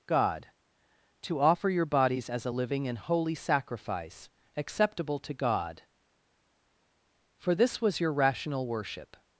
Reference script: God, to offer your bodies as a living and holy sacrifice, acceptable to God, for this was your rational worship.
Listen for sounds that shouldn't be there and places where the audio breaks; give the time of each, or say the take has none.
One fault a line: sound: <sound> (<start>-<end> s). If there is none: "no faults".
no faults